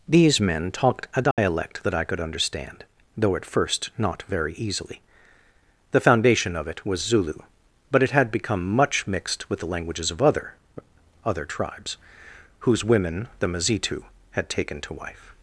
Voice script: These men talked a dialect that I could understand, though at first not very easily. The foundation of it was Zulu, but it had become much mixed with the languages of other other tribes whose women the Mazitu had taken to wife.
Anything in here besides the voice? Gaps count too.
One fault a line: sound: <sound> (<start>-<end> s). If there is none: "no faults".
sound: dropout (1.3-1.4 s)